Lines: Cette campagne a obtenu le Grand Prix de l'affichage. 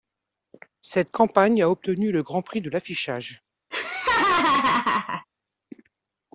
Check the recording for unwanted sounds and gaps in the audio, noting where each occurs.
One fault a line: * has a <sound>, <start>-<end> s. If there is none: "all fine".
* has a laugh, 3.7-5.3 s